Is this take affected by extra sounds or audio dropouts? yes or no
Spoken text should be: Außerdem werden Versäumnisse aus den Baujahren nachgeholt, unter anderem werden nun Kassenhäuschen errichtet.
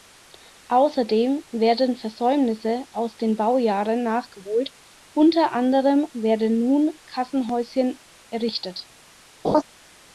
yes